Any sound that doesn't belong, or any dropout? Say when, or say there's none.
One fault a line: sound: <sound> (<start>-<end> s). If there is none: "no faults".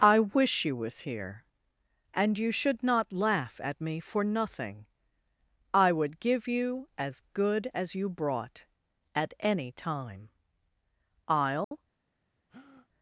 sound: dropout (11.6-11.7 s)
sound: breath (12.5-12.9 s)